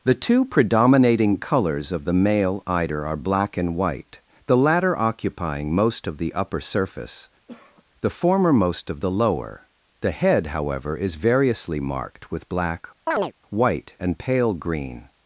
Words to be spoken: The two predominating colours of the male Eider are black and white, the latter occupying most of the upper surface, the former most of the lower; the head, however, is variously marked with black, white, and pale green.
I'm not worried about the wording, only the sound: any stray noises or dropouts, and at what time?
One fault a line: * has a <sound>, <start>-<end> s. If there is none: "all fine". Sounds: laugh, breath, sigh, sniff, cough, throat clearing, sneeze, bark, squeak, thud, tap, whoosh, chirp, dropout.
* has a cough, 7.5-7.8 s
* has a chirp, 13.1-13.3 s